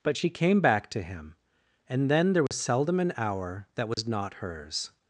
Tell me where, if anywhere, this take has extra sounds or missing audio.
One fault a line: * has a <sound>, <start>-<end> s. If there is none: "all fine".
* has a dropout, 2.5-2.5 s
* has a dropout, 3.9-4.0 s